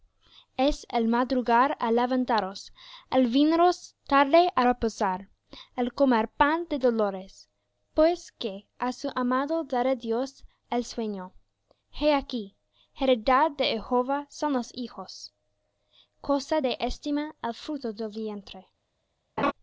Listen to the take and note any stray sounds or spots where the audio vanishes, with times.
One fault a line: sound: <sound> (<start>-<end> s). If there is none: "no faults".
sound: laugh (19.4-19.5 s)